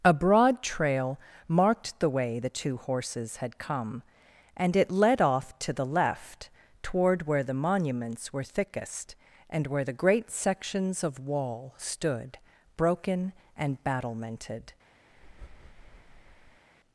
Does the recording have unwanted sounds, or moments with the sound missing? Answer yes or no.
yes